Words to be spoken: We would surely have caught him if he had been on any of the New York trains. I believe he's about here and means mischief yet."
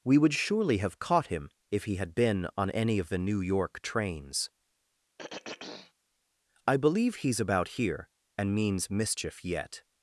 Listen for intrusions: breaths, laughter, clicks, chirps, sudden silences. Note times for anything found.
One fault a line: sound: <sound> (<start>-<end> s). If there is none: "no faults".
sound: throat clearing (5.2-5.9 s)